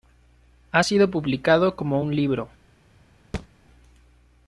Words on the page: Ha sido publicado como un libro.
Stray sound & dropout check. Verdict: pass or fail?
fail